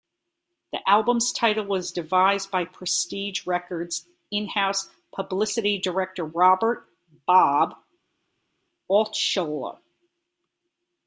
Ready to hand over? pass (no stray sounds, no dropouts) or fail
pass